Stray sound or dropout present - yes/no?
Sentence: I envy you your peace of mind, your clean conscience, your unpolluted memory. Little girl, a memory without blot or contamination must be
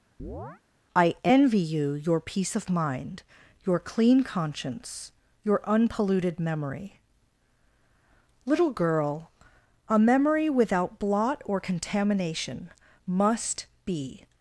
yes